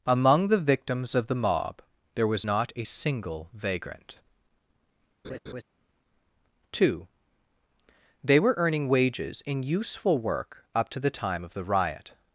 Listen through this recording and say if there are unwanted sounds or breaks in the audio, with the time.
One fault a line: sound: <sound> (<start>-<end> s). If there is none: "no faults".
sound: laugh (5.2-5.6 s)